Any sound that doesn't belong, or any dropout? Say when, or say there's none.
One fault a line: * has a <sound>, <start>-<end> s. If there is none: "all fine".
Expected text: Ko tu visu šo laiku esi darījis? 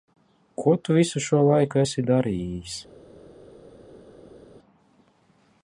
all fine